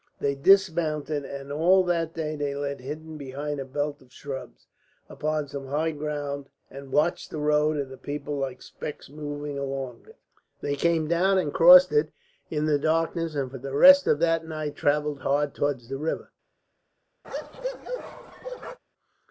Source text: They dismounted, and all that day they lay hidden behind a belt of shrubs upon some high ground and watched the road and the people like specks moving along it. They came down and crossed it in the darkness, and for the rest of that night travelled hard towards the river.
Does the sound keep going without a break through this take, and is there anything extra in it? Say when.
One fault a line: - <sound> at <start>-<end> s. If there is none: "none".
- bark at 17.2-18.8 s